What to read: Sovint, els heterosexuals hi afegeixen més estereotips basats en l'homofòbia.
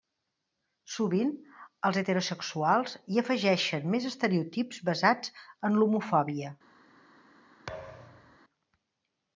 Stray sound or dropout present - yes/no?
yes